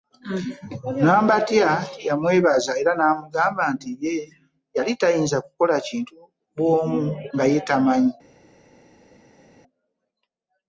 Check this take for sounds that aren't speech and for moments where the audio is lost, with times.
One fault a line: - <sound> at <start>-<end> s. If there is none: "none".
none